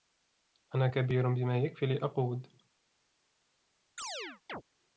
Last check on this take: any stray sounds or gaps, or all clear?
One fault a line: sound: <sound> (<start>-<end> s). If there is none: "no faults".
sound: chirp (4.0-4.6 s)